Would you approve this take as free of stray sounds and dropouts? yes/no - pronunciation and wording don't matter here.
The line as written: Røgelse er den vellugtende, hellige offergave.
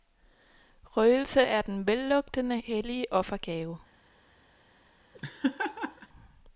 no